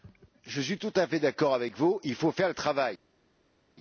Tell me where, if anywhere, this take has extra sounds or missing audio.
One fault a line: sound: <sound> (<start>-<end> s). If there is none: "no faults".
no faults